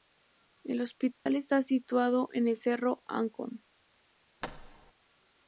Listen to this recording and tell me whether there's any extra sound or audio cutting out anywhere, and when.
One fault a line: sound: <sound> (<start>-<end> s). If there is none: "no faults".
sound: dropout (1.1-1.3 s)
sound: thud (4.4-4.9 s)